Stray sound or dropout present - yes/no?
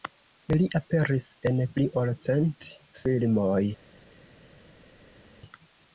no